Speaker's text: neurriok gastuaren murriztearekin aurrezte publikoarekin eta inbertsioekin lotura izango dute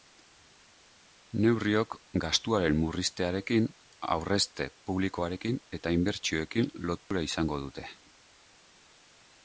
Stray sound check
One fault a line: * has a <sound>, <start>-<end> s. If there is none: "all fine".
* has a dropout, 7.0-7.1 s